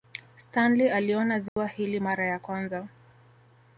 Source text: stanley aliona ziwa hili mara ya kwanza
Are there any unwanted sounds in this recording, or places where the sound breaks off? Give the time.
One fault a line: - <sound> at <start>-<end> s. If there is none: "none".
- dropout at 1.5-1.6 s